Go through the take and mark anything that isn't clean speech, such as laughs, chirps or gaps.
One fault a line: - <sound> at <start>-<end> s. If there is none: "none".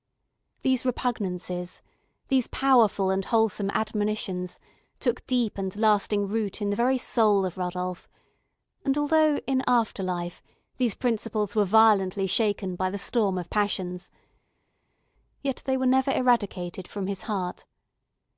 none